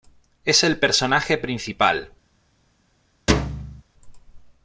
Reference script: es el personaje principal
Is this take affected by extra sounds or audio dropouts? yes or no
yes